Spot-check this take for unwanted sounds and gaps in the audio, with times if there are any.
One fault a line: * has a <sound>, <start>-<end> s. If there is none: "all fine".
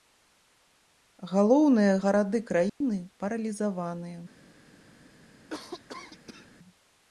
* has a dropout, 2.7-2.8 s
* has a cough, 5.5-6.5 s